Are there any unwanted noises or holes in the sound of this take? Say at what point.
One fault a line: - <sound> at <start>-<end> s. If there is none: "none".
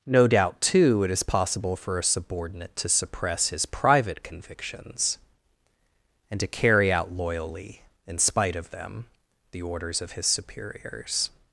none